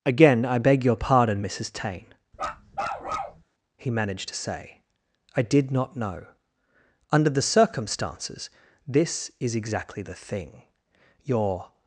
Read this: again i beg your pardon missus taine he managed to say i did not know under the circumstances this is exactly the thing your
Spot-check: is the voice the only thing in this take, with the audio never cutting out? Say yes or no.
no